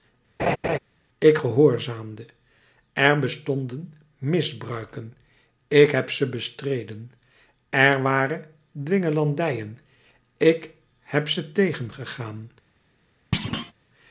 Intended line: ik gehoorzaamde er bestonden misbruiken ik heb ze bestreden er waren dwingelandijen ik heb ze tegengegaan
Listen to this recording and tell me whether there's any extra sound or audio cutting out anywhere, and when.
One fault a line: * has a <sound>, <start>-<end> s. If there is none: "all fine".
* has a laugh, 0.4-0.8 s
* has a thud, 13.3-13.7 s